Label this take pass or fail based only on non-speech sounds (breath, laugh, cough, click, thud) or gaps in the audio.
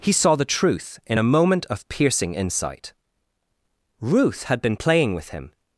pass